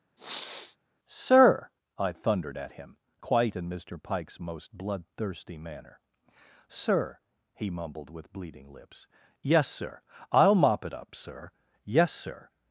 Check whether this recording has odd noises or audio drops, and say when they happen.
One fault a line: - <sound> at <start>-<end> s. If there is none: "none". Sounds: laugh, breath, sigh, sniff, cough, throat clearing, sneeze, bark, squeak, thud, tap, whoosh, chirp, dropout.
- sniff at 0.2-0.8 s